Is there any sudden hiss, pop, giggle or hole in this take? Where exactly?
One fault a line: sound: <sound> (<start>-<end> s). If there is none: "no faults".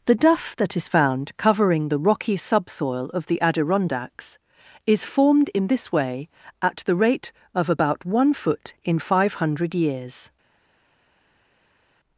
no faults